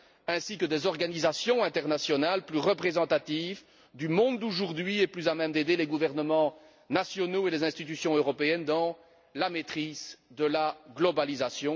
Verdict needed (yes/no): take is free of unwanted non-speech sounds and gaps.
yes